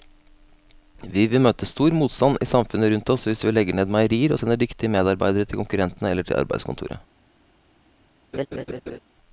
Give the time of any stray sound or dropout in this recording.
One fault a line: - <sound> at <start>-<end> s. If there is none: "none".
- laugh at 8.3-9.0 s